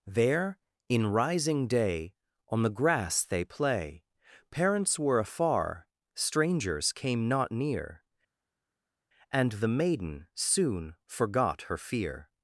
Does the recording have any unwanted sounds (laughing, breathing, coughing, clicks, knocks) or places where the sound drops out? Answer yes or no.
no